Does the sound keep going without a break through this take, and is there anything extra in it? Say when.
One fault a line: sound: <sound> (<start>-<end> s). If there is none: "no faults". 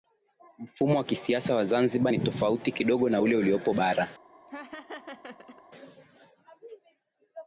sound: laugh (4.5-5.6 s)